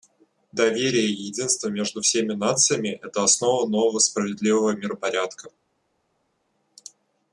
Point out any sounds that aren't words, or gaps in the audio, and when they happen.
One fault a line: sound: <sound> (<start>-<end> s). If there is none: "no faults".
no faults